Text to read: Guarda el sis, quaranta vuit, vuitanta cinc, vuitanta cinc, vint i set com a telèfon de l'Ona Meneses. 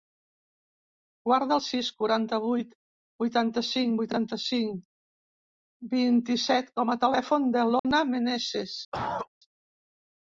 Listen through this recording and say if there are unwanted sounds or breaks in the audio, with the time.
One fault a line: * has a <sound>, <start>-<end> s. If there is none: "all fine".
* has a dropout, 7.8-7.8 s
* has a cough, 8.9-9.3 s